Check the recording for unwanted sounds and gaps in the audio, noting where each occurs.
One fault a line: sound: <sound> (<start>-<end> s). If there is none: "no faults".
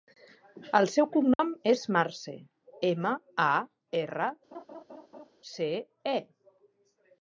sound: dropout (1.3-1.4 s)
sound: laugh (4.5-5.3 s)